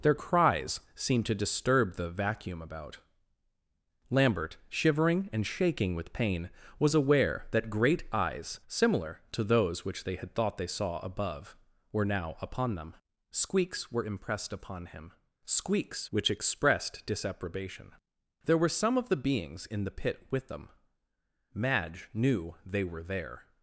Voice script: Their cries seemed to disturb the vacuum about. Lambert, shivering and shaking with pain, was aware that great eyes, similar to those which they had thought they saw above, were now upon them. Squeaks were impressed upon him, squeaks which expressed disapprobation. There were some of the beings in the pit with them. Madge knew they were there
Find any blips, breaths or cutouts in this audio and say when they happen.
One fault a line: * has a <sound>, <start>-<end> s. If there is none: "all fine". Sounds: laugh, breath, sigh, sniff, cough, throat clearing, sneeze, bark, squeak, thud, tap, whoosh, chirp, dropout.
all fine